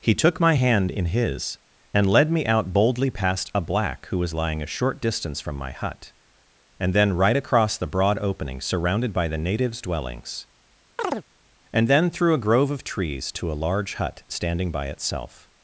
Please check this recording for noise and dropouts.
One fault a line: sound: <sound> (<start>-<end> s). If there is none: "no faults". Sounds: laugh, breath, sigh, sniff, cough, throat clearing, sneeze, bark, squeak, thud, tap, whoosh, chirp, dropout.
sound: chirp (11.0-11.2 s)